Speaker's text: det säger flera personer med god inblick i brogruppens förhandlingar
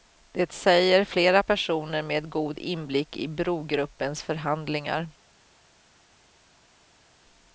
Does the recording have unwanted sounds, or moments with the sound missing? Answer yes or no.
no